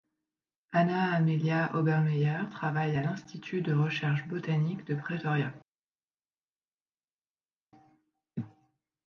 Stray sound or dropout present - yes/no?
no